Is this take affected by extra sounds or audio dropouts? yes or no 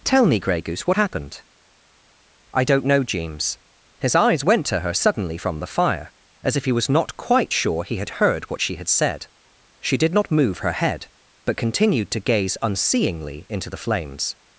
no